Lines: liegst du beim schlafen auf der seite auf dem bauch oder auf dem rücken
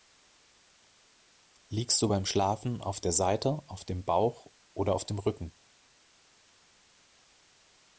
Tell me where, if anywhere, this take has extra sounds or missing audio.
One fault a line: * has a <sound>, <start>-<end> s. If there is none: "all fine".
all fine